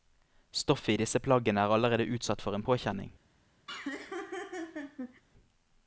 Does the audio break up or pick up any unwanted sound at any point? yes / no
yes